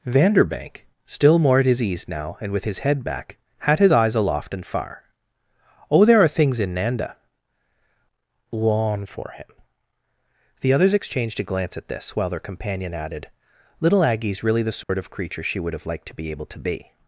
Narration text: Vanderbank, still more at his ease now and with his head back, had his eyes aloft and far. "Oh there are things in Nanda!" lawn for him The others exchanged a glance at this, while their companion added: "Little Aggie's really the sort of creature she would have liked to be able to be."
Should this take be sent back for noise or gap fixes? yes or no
yes